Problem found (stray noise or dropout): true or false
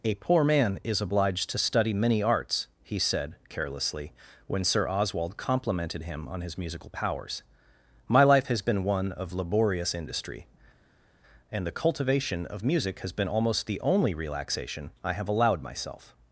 false